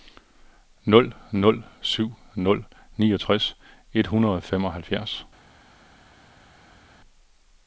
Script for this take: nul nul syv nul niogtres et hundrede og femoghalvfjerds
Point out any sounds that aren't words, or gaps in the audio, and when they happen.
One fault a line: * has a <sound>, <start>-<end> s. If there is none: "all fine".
all fine